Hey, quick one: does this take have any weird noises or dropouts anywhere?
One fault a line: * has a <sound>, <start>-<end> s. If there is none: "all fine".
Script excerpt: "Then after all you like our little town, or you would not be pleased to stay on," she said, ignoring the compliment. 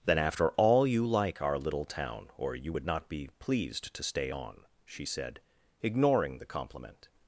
all fine